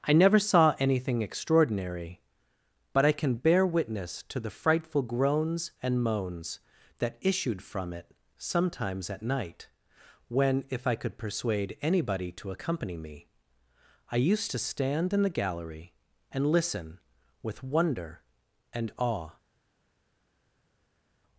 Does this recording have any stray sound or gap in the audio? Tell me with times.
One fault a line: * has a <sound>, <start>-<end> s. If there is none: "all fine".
all fine